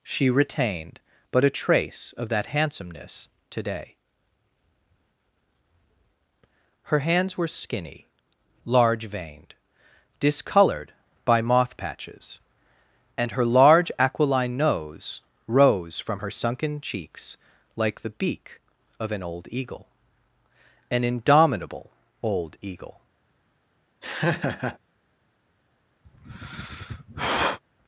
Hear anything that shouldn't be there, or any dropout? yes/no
yes